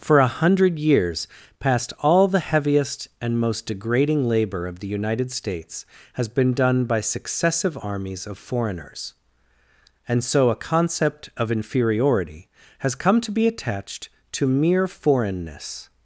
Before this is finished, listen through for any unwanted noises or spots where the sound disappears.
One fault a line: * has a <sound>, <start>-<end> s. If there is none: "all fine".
all fine